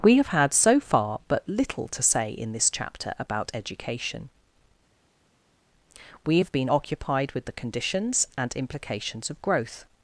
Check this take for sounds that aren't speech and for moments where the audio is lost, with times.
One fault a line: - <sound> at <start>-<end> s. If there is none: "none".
none